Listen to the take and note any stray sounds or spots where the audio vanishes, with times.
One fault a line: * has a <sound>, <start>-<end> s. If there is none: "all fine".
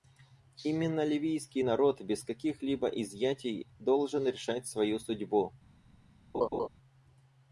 * has a laugh, 6.3-6.7 s